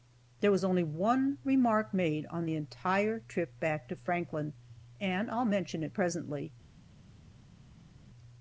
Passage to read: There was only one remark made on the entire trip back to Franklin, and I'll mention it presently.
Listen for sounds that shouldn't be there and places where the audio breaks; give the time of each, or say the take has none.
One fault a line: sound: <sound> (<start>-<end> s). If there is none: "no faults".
no faults